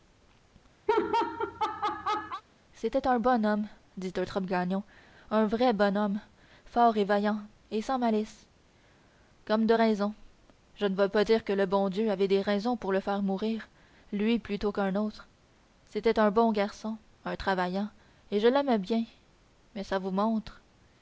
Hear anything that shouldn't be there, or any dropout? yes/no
yes